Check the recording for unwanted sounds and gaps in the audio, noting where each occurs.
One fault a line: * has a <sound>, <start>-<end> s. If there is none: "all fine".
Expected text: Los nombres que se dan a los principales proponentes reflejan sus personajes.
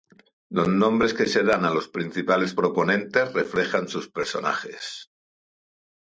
all fine